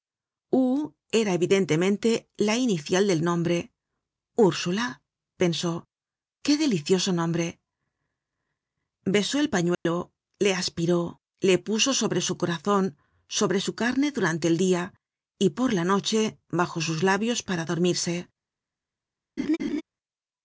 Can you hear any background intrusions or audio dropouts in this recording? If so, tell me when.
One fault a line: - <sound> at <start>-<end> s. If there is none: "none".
- dropout at 9.7-9.9 s
- laugh at 19.4-19.8 s